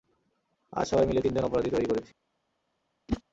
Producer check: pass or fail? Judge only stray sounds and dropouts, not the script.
fail